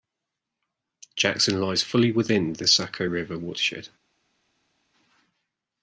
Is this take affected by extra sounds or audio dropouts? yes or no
no